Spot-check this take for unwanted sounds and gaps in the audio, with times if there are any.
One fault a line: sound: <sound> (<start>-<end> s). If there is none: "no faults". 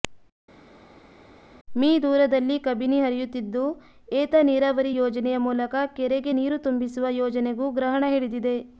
no faults